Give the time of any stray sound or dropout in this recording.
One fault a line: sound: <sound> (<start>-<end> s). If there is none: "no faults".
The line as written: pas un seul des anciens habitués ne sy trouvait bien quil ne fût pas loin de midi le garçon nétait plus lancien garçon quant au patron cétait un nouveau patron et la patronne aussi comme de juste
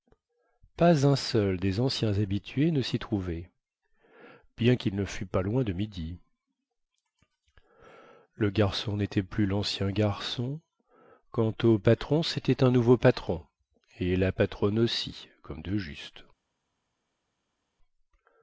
no faults